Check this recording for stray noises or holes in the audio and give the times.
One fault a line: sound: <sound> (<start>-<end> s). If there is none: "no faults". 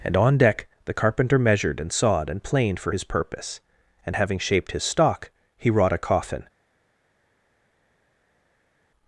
no faults